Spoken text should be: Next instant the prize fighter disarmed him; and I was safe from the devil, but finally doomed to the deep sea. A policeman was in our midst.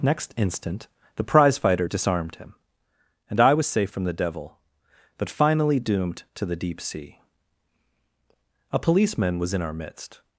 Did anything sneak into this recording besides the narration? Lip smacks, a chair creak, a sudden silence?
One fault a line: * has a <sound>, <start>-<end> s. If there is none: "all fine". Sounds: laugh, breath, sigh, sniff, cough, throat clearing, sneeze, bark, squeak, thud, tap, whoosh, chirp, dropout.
all fine